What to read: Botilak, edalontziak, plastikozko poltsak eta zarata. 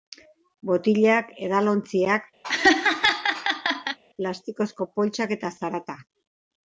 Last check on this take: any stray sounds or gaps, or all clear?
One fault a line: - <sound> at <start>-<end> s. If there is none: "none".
- laugh at 2.4-4.0 s